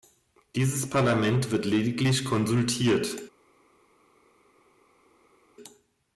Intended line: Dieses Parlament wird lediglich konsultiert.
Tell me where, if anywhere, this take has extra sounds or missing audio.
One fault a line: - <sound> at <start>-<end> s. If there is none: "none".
none